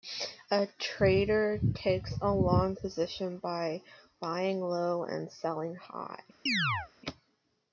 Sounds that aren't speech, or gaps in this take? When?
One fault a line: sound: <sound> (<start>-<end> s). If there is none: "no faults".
sound: chirp (6.5-6.9 s)